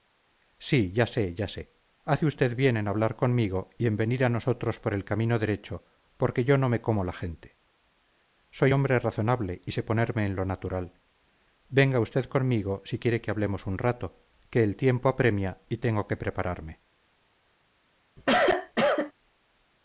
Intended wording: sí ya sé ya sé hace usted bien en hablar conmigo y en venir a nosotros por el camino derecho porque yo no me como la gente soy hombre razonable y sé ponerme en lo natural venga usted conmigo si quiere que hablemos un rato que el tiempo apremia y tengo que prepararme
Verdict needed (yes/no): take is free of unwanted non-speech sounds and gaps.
no